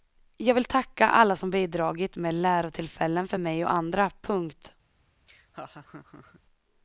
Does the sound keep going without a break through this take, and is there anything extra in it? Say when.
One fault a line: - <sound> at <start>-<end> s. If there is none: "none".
- laugh at 5.3-6.4 s